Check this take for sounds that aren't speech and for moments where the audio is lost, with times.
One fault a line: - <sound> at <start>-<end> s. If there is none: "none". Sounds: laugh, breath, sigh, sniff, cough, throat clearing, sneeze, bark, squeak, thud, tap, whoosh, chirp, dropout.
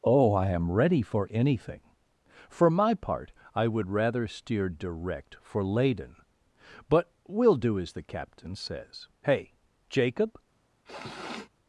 - sniff at 10.9-11.5 s